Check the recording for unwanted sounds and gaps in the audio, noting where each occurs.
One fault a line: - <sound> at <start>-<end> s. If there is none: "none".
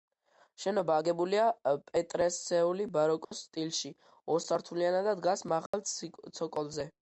- dropout at 3.2-3.3 s
- dropout at 5.7-5.7 s